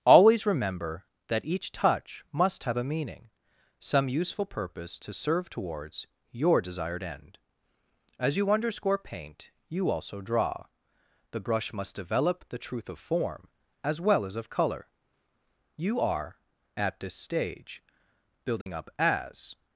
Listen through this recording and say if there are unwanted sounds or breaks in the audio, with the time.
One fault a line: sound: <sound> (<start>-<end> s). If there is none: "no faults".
sound: dropout (18.6-18.7 s)